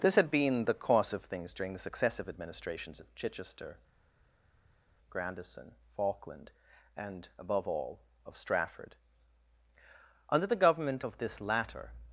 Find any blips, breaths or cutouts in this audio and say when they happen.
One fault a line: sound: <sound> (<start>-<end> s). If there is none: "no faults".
no faults